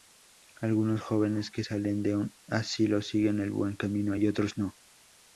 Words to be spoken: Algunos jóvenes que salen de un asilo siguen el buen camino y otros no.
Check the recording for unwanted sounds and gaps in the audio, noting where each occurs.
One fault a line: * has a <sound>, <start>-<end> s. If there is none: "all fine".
all fine